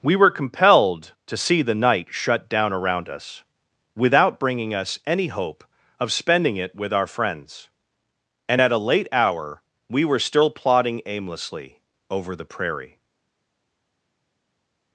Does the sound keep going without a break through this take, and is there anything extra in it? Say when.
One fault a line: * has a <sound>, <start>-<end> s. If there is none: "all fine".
all fine